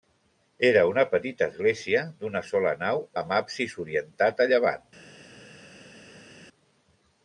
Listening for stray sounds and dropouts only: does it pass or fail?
pass